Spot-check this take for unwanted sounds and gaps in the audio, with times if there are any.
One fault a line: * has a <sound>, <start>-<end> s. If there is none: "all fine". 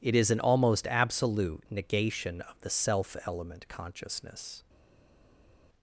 all fine